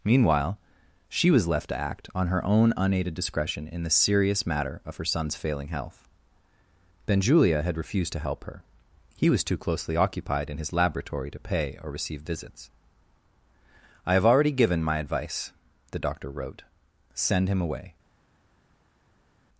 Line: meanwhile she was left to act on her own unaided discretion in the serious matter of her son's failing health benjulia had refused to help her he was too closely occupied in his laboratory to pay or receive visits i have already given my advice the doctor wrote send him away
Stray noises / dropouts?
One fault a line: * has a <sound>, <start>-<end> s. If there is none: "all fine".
all fine